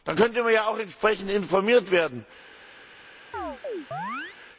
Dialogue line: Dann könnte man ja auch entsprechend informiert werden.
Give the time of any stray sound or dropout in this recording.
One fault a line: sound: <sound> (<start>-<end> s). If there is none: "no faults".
sound: chirp (3.3-4.4 s)